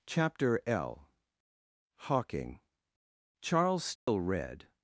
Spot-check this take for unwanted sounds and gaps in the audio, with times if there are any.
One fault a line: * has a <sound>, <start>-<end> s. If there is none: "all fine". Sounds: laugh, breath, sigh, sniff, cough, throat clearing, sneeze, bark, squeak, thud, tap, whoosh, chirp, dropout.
* has a dropout, 4.0-4.1 s